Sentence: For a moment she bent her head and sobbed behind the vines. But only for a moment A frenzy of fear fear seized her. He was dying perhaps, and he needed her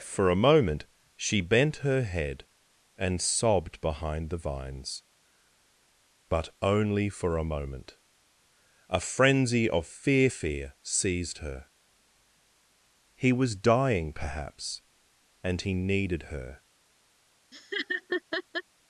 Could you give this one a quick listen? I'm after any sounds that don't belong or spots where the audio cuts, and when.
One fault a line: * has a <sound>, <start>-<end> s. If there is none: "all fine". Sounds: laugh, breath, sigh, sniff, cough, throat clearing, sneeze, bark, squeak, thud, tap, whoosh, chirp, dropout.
* has a laugh, 17.5-18.6 s